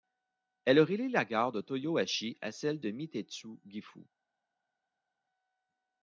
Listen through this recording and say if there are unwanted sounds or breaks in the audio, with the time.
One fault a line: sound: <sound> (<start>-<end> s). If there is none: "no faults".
no faults